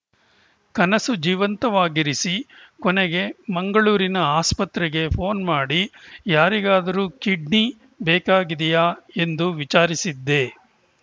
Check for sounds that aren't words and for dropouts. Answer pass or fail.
pass